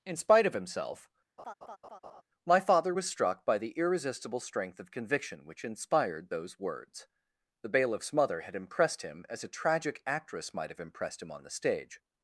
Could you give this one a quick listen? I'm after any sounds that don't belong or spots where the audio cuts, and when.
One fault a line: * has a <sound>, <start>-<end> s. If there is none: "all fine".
* has a laugh, 1.4-2.2 s